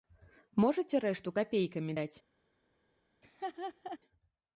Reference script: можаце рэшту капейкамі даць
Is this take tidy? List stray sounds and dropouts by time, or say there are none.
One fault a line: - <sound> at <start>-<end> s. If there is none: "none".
- laugh at 3.2-4.0 s